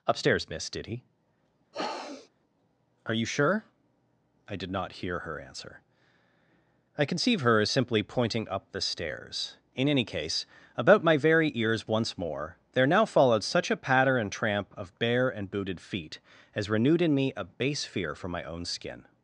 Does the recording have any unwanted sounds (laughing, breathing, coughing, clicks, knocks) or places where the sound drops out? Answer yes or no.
yes